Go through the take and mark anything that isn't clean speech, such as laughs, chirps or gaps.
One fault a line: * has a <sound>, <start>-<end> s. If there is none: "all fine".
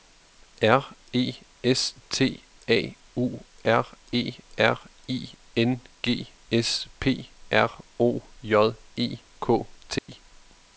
* has a dropout, 10.0-10.1 s